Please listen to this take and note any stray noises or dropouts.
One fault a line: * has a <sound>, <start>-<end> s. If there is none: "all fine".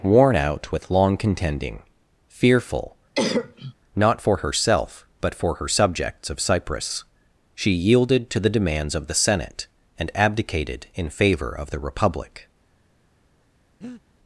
* has a cough, 3.1-3.7 s
* has a breath, 13.8-14.0 s